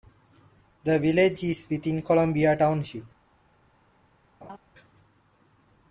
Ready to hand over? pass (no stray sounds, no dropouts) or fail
fail